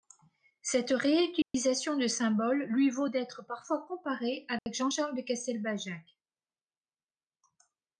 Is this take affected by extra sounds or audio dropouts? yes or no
yes